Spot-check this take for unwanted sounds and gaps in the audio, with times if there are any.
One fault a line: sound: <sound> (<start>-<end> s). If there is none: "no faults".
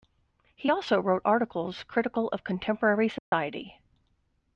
sound: dropout (3.2-3.3 s)